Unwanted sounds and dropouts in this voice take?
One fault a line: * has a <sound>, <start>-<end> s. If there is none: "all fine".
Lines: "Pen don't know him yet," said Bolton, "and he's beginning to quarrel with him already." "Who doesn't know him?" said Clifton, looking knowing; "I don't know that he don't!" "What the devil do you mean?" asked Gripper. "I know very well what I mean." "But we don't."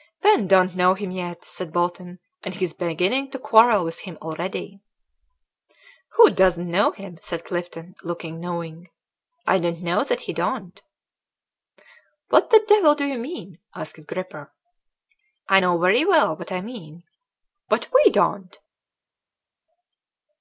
all fine